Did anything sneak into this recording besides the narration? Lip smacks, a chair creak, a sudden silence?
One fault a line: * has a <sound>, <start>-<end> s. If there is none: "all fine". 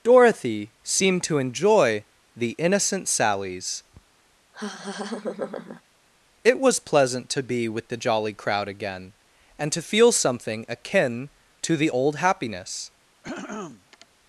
* has a laugh, 4.5-5.8 s
* has a throat clearing, 13.2-14.1 s